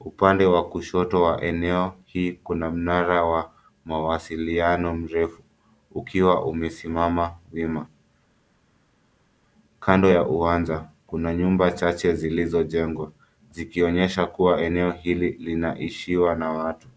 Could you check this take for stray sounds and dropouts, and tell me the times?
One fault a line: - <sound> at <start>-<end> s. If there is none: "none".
none